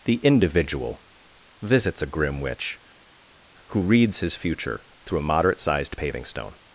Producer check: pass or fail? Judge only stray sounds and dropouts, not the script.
pass